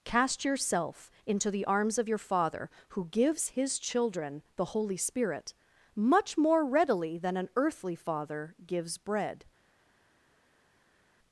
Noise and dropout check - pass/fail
pass